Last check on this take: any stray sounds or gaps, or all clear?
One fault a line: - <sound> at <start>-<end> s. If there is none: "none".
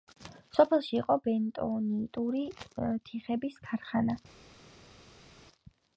none